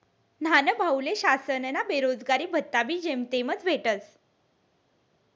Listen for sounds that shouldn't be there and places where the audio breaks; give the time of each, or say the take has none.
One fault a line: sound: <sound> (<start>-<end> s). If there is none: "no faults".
no faults